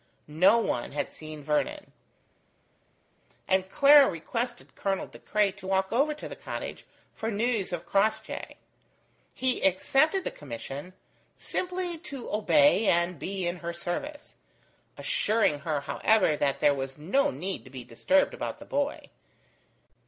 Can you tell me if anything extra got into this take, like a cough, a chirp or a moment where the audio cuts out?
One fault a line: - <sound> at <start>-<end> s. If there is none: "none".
none